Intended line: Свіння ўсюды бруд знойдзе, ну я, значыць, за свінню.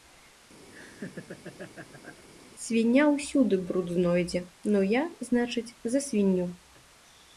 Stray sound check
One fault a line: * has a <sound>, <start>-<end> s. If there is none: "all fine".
* has a laugh, 0.7-2.2 s